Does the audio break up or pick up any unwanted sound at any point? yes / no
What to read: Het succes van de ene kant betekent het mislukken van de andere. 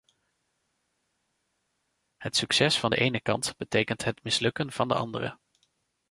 no